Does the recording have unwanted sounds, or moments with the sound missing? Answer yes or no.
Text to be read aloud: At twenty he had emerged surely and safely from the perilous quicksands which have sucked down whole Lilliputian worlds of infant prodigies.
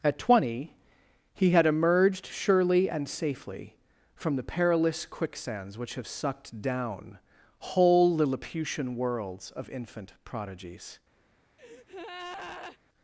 yes